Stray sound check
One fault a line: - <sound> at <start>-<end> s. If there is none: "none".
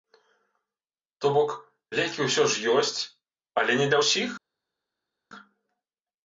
none